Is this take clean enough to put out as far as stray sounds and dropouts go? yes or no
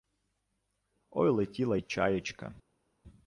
yes